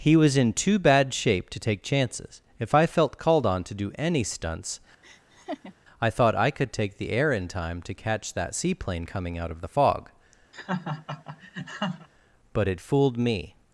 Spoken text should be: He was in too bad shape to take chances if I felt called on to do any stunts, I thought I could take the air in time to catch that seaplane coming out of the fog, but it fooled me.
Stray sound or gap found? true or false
true